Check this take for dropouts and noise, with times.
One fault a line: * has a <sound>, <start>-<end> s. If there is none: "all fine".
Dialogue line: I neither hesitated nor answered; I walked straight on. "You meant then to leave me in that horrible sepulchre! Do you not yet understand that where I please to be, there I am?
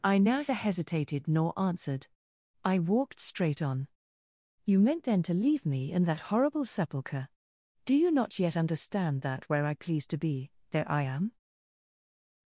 all fine